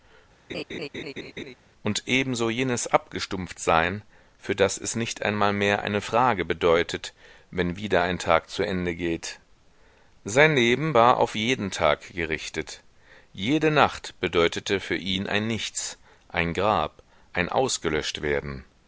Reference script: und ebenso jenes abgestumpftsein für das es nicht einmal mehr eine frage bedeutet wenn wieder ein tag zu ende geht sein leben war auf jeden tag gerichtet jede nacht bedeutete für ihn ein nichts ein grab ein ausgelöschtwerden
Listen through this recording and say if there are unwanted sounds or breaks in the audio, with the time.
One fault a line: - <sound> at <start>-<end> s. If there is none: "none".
- laugh at 0.5-1.5 s